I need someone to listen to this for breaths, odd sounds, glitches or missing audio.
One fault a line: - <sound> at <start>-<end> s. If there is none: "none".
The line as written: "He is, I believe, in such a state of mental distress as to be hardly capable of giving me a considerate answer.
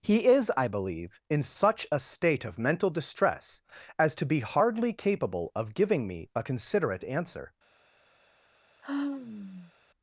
- sigh at 8.8-9.7 s